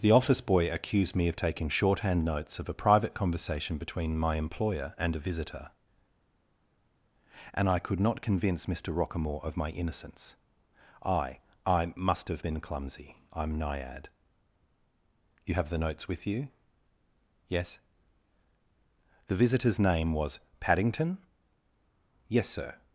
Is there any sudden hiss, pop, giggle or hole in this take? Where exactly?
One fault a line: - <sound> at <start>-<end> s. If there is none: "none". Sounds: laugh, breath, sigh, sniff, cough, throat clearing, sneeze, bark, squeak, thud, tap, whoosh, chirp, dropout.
none